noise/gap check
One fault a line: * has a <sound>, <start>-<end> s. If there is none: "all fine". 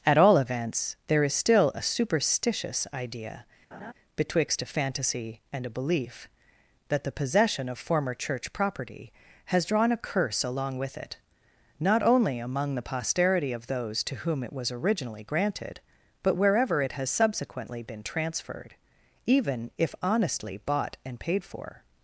* has a laugh, 3.7-3.9 s